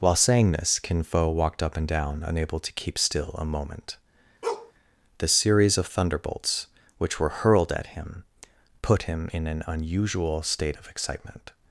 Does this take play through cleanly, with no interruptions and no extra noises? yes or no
no